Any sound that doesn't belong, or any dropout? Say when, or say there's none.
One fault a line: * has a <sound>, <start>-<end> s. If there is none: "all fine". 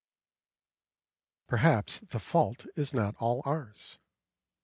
all fine